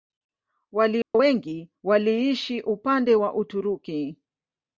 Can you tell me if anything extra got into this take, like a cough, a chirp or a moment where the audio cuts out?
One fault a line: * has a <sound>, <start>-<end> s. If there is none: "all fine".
* has a dropout, 1.0-1.1 s